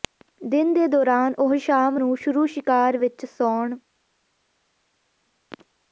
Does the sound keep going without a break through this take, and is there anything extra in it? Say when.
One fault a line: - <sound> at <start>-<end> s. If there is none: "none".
none